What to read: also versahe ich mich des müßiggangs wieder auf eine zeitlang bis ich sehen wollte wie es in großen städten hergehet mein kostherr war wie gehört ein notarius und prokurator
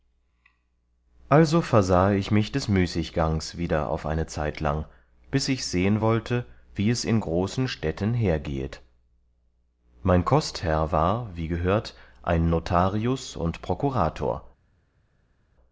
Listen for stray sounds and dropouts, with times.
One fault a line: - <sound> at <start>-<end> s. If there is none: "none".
none